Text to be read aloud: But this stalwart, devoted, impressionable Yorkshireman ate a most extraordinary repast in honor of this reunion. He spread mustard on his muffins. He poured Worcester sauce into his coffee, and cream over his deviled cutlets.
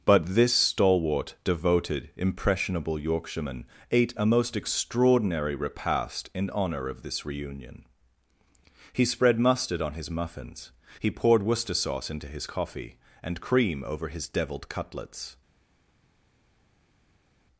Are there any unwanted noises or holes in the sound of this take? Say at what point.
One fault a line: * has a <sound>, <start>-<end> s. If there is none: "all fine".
all fine